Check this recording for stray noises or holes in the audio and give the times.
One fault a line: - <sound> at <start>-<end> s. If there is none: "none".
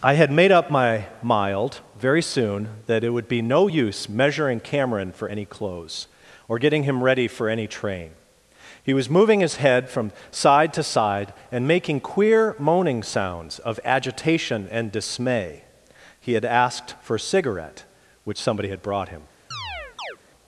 - chirp at 19.5-20.2 s